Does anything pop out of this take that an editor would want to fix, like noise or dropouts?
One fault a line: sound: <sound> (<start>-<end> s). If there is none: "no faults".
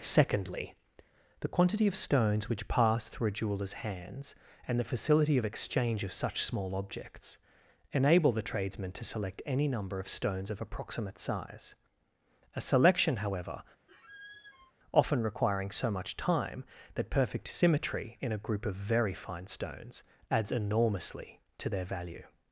sound: squeak (13.9-14.7 s)